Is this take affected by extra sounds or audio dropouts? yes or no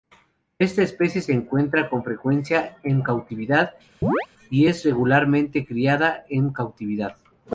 yes